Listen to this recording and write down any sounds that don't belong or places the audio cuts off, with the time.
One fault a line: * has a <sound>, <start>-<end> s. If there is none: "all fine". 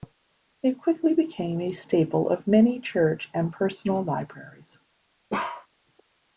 * has a bark, 5.3-5.7 s